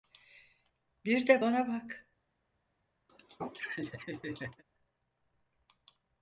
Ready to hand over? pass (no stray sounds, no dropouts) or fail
fail